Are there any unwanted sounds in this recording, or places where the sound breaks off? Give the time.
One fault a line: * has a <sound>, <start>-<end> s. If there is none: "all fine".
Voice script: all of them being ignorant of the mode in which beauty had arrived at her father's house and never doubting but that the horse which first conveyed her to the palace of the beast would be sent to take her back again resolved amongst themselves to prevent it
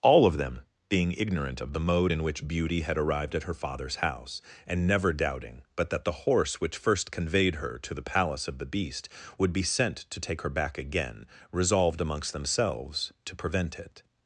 all fine